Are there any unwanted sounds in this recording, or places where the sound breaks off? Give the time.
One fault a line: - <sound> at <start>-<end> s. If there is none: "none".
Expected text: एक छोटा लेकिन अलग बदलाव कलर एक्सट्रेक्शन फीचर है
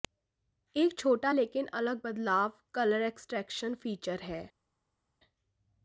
none